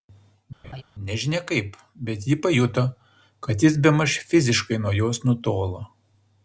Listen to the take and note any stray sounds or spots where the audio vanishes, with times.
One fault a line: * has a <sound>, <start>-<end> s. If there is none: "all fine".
* has a laugh, 0.6-0.8 s